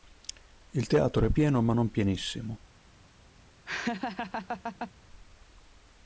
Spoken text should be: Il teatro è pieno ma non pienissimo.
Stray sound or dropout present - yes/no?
yes